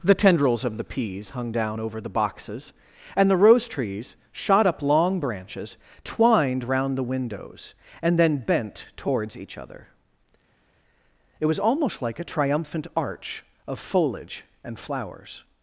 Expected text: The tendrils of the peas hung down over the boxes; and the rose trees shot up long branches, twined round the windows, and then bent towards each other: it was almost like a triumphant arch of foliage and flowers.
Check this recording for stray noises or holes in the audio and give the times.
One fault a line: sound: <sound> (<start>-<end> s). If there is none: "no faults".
no faults